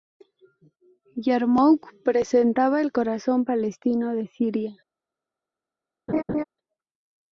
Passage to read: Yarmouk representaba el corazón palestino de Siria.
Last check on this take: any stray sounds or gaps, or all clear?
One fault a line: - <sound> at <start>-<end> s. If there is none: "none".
- laugh at 6.1-6.4 s